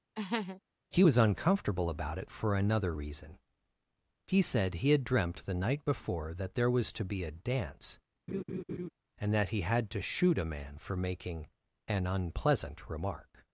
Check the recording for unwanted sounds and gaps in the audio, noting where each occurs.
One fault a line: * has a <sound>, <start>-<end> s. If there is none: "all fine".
* has a laugh, 0.1-0.6 s
* has a laugh, 8.3-8.9 s